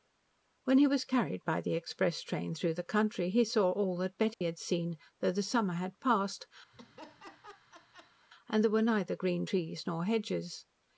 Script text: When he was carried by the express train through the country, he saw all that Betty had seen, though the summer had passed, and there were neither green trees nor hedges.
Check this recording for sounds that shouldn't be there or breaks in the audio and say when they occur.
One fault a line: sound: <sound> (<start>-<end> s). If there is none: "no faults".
sound: dropout (4.3-4.4 s)
sound: laugh (6.7-8.3 s)